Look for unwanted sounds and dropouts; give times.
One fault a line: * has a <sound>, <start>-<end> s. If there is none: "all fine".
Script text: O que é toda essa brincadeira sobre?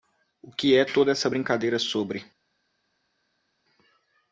all fine